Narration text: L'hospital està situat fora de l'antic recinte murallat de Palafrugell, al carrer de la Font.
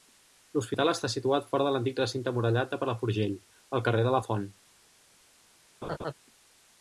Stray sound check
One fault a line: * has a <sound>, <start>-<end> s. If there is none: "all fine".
* has a laugh, 5.8-6.1 s